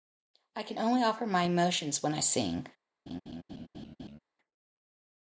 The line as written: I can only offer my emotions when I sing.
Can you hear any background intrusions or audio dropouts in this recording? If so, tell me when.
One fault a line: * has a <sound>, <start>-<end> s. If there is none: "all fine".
* has a laugh, 3.1-4.2 s